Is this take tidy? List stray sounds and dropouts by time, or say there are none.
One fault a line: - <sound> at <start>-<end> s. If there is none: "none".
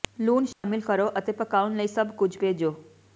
- dropout at 0.5-0.6 s